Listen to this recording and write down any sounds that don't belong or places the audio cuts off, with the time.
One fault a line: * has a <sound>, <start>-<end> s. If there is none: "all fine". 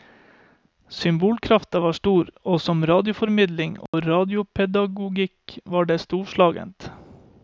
* has a dropout, 3.9-3.9 s